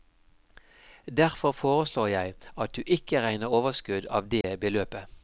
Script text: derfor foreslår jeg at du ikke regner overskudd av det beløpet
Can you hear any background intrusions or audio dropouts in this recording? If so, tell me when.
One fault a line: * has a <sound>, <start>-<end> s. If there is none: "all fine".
* has a dropout, 4.4-4.4 s